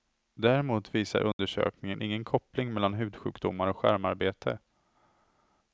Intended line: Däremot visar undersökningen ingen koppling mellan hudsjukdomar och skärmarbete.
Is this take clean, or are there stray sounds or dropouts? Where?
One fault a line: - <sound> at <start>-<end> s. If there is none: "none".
- dropout at 1.3-1.4 s